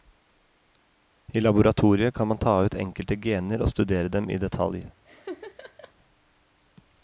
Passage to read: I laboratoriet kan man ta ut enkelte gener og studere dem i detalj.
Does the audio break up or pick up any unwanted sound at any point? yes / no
yes